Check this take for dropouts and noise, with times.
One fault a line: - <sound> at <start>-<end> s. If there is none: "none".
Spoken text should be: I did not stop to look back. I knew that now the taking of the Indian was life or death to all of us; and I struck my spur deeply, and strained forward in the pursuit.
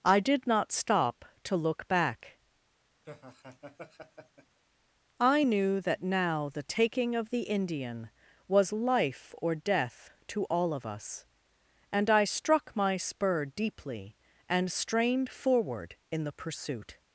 - laugh at 3.0-4.6 s